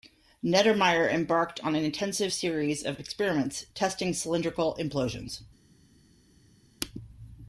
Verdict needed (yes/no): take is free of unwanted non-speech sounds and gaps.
yes